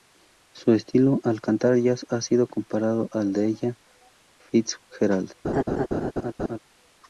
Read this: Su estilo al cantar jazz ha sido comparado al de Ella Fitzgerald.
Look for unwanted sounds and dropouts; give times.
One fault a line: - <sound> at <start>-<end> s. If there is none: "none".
- laugh at 5.4-6.6 s